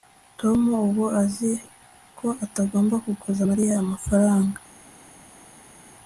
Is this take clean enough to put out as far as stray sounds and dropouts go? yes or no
yes